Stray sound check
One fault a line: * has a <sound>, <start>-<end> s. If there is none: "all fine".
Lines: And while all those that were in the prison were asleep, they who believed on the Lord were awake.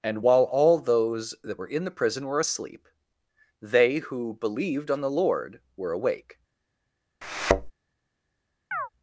* has a thud, 7.2-7.7 s
* has a chirp, 8.7-8.9 s